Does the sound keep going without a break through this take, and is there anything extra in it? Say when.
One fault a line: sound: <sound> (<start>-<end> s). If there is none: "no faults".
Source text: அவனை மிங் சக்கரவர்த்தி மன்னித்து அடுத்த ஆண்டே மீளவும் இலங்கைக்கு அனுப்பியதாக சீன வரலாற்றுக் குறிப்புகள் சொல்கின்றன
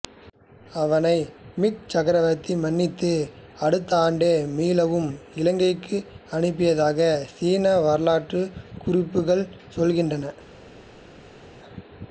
no faults